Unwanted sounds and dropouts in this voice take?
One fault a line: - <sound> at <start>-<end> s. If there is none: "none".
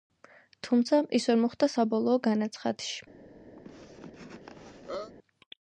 - cough at 3.6-5.1 s